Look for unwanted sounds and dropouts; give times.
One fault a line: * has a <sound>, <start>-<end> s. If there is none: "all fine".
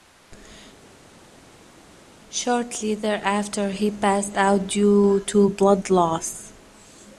all fine